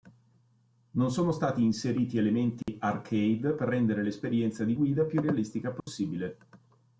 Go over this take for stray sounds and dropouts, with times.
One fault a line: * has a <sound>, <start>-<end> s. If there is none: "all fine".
* has a dropout, 2.6-2.7 s
* has a dropout, 5.8-5.9 s